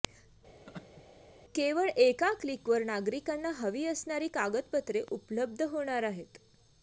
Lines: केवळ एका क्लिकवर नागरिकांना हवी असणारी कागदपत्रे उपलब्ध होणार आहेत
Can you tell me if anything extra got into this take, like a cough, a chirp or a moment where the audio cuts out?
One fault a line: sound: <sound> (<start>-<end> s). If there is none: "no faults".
sound: laugh (0.7-1.0 s)